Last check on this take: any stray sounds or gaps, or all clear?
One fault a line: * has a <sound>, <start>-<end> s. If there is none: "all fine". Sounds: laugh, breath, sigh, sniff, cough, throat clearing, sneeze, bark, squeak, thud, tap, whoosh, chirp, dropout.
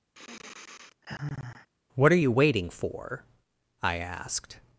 * has a sigh, 0.1-1.7 s